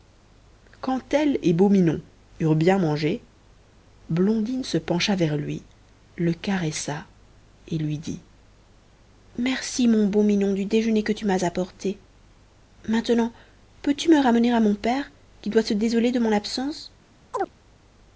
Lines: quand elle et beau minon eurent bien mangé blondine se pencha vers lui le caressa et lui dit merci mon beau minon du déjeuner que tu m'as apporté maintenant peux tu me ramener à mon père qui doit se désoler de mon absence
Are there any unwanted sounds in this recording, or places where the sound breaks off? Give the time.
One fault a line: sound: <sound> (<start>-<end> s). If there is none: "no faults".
sound: chirp (17.3-17.5 s)